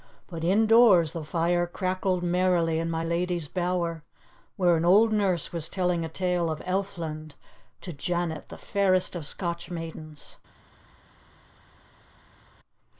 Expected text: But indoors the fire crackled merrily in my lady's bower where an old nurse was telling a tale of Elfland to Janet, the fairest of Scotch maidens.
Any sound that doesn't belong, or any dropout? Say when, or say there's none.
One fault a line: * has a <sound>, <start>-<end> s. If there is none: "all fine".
all fine